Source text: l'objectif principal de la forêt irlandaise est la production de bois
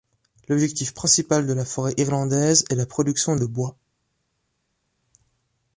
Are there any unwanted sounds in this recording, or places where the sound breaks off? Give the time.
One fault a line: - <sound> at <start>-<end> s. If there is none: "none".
none